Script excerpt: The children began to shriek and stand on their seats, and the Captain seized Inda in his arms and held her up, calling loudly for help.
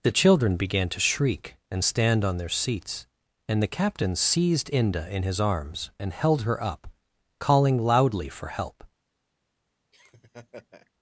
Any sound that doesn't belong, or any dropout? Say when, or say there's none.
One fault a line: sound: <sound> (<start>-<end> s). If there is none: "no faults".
sound: laugh (9.9-10.9 s)